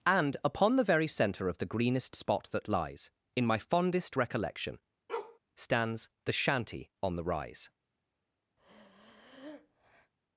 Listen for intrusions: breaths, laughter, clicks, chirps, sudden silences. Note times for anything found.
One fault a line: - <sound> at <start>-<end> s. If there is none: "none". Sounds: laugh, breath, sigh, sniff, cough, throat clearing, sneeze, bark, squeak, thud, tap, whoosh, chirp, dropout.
- bark at 5.1-5.4 s
- breath at 8.6-10.1 s